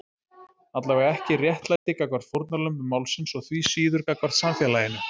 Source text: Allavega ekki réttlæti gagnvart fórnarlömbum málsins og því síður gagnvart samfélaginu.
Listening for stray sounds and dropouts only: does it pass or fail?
fail